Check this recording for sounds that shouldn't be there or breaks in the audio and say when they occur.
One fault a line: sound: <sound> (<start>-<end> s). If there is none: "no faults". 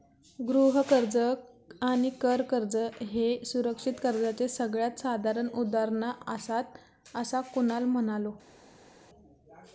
no faults